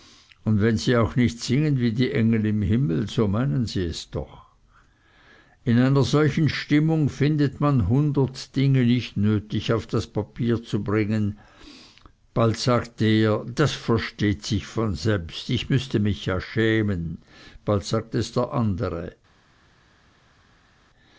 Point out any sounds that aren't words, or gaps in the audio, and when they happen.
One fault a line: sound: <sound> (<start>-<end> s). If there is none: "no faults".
no faults